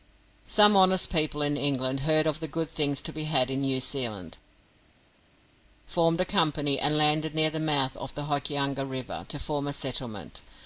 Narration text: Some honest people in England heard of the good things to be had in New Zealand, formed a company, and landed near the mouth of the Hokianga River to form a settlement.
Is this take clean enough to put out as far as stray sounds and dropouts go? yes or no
yes